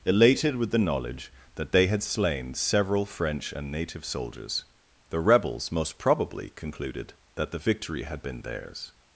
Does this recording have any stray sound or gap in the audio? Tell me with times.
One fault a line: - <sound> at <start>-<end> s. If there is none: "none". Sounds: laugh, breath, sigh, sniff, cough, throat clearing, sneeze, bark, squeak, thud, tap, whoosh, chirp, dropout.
none